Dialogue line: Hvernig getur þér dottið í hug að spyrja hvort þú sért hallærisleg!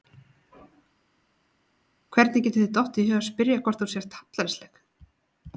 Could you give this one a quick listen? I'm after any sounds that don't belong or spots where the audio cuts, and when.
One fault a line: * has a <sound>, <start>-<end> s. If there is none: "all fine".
all fine